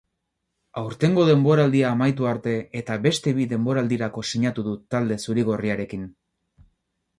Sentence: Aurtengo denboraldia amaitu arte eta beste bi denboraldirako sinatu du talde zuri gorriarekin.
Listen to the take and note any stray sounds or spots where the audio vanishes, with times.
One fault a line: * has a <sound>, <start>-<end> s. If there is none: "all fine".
all fine